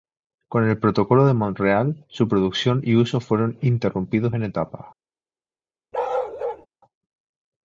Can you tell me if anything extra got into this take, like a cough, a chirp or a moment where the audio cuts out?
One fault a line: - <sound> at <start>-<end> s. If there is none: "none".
- bark at 5.9-6.7 s